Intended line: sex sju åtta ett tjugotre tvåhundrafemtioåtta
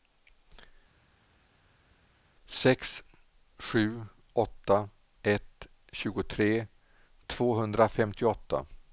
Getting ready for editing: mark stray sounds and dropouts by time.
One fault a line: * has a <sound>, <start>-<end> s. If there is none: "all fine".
all fine